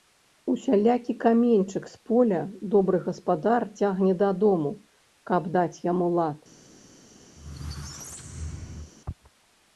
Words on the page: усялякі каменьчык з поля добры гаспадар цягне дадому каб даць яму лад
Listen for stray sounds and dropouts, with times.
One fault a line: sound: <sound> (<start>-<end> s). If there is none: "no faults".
sound: squeak (7.4-8.9 s)